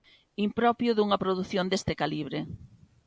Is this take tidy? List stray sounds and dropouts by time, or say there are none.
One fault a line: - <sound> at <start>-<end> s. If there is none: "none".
none